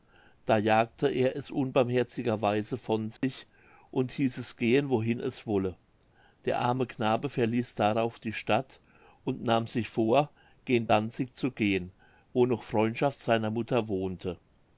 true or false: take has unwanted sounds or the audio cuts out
true